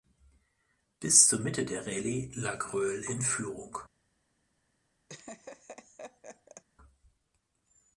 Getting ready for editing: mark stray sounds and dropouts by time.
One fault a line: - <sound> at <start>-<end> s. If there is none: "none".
- laugh at 5.1-6.6 s